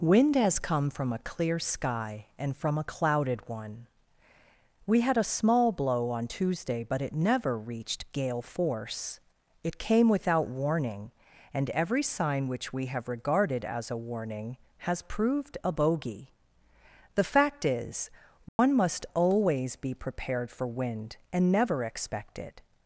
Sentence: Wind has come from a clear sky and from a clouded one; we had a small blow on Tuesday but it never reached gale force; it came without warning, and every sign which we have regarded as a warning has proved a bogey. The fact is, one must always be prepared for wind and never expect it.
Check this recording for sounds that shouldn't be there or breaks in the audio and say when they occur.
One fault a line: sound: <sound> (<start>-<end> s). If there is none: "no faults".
sound: dropout (18.5-18.6 s)